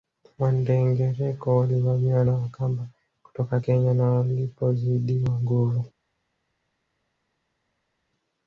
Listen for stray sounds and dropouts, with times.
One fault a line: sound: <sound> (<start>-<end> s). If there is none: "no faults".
no faults